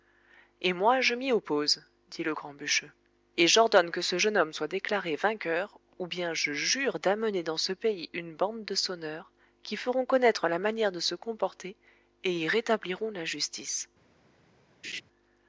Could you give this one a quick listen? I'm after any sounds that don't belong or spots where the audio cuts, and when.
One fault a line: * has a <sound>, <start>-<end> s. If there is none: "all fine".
* has a laugh, 14.8-15.0 s